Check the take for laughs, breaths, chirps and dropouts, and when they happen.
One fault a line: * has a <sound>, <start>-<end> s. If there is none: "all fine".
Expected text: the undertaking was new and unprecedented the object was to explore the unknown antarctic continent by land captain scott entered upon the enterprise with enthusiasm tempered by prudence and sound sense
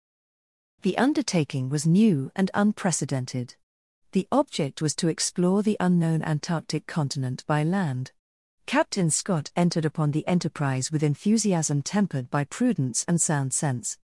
all fine